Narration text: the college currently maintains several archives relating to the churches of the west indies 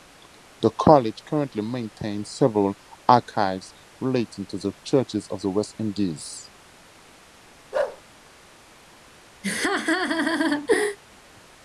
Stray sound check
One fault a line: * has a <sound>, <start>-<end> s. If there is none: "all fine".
* has a bark, 7.7-8.0 s
* has a laugh, 9.4-11.0 s